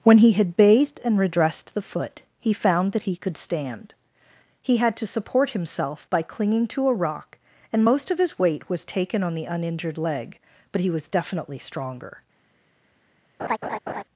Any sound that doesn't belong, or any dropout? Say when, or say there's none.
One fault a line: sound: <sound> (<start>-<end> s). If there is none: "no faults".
sound: laugh (13.4-14.0 s)